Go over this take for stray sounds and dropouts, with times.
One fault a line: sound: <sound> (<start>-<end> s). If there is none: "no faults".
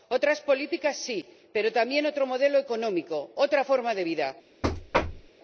sound: thud (4.6-5.3 s)